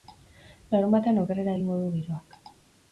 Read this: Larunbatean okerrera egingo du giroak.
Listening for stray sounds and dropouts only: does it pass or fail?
pass